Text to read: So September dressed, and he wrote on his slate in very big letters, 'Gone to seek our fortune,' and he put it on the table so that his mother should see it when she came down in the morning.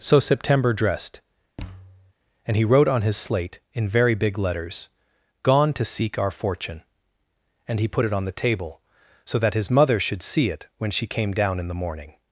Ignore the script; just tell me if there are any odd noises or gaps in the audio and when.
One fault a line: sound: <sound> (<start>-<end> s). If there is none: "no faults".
sound: thud (1.6-2.1 s)